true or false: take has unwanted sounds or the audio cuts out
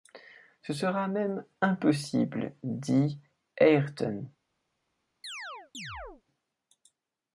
true